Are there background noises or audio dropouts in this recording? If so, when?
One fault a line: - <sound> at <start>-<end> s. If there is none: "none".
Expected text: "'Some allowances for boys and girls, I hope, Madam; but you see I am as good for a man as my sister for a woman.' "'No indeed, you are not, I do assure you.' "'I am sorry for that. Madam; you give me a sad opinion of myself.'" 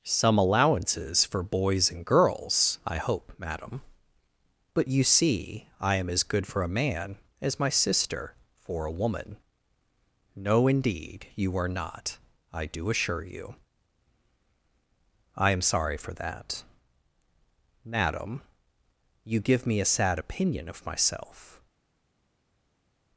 none